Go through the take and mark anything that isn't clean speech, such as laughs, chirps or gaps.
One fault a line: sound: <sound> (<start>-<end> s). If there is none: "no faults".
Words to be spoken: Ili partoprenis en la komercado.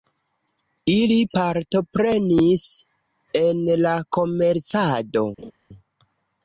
sound: laugh (5.4-5.5 s)